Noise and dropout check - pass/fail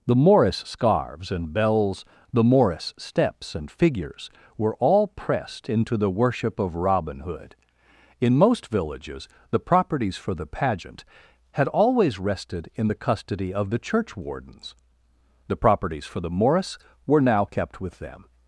pass